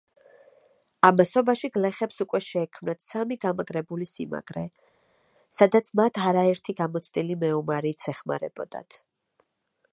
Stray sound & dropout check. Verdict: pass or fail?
pass